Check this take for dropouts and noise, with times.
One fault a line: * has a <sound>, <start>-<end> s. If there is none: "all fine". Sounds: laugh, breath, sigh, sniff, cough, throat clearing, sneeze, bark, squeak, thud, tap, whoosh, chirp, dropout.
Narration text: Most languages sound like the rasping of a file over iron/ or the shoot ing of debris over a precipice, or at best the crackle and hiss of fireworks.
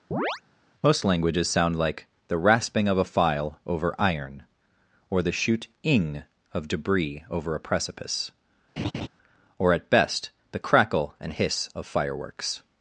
* has a chirp, 0.1-0.4 s
* has a laugh, 8.8-9.1 s